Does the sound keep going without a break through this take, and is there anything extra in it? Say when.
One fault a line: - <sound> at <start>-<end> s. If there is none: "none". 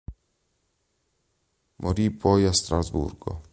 none